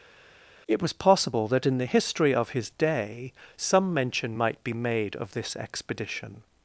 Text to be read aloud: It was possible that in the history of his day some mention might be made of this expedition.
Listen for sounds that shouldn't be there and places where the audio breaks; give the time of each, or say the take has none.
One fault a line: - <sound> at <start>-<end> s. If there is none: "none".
none